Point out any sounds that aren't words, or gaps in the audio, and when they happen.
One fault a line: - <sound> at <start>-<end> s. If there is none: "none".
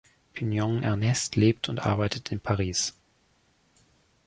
none